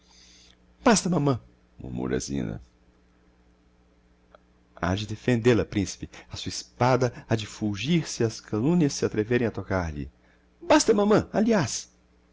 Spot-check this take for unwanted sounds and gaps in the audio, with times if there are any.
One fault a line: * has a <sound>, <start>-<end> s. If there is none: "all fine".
all fine